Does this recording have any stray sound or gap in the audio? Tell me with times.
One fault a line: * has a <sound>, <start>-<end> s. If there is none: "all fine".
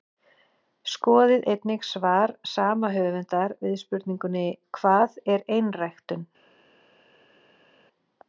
all fine